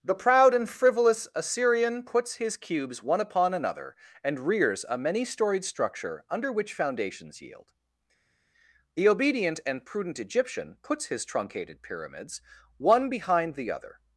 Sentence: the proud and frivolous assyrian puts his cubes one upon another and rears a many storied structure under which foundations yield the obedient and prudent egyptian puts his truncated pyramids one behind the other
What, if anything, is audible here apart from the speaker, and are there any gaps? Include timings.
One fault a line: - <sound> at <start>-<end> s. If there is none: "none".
none